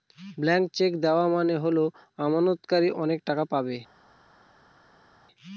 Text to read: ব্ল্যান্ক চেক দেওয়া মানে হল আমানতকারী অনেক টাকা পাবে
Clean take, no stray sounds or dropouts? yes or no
yes